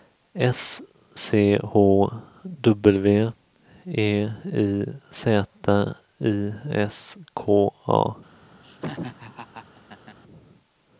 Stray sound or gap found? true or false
true